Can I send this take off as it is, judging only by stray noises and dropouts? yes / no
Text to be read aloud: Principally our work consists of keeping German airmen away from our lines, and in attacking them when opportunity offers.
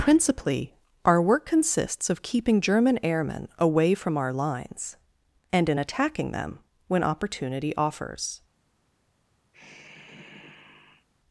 no